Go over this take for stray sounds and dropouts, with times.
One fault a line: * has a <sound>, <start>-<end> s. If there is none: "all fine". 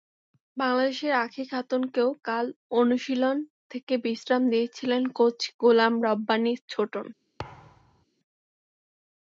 * has a thud, 7.4-8.0 s